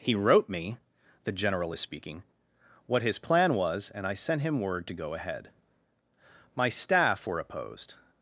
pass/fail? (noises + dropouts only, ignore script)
pass